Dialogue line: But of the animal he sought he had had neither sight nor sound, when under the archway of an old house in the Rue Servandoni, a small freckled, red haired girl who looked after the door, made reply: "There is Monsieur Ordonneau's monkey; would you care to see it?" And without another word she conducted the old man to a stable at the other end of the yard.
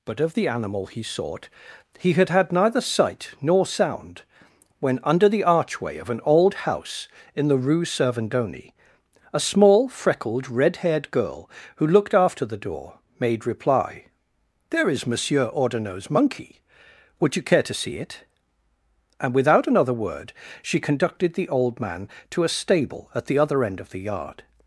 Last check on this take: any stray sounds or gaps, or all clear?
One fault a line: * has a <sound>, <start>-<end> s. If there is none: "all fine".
all fine